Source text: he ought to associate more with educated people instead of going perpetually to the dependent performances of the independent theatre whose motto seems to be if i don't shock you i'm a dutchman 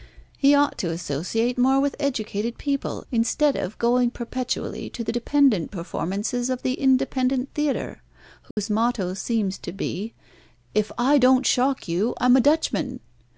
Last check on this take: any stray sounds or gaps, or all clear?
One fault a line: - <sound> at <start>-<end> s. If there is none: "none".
- dropout at 8.5-8.6 s